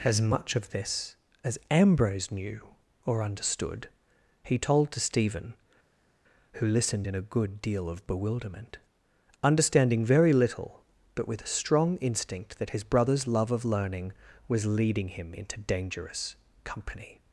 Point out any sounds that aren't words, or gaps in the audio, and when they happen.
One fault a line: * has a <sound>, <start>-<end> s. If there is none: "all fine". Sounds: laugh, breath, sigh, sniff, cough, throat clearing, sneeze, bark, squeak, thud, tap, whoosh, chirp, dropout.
all fine